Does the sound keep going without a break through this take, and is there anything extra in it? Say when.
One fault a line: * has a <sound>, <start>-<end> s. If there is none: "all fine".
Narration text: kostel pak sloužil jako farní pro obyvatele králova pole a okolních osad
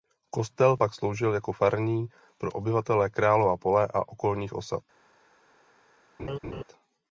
* has a laugh, 6.2-6.6 s